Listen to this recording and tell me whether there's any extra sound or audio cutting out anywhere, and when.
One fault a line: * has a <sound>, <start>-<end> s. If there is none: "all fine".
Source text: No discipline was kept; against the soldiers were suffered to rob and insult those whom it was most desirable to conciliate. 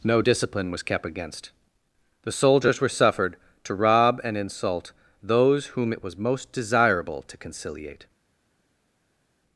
all fine